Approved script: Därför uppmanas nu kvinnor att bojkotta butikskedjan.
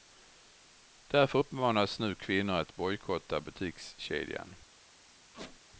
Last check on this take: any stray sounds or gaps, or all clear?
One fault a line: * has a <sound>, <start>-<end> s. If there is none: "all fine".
* has a squeak, 5.3-5.6 s